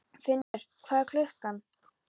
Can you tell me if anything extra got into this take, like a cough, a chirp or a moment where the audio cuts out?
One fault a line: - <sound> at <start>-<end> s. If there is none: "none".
- dropout at 0.4-0.5 s